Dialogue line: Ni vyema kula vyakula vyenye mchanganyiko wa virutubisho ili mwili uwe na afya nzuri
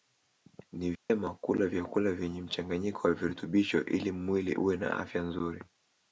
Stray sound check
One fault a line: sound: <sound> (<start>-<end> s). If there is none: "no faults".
sound: dropout (1.0-1.1 s)